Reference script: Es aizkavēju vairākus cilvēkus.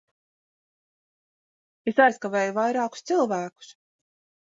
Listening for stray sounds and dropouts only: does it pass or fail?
pass